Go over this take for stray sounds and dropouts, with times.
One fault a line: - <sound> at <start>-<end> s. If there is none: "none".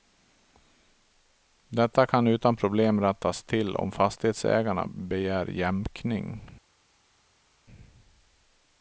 none